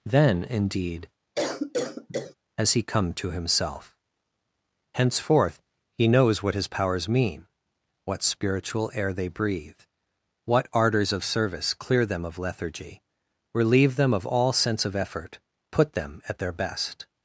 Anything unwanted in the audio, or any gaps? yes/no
yes